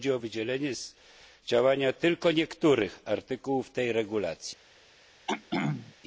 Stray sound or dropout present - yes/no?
yes